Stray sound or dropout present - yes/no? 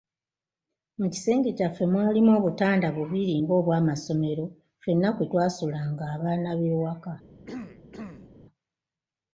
yes